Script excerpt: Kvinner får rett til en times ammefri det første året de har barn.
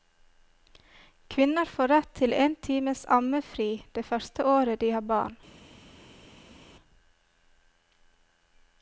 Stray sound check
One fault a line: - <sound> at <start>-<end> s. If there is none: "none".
none